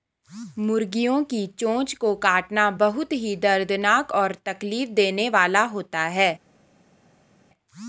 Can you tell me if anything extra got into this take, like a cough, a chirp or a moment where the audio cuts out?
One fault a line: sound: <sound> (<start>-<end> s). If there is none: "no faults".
no faults